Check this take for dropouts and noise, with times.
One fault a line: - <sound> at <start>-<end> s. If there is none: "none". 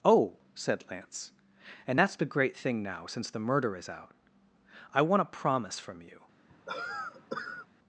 - cough at 6.5-7.7 s